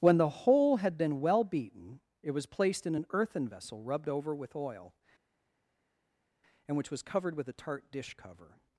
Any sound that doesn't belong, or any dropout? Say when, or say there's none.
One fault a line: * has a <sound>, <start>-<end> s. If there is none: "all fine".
all fine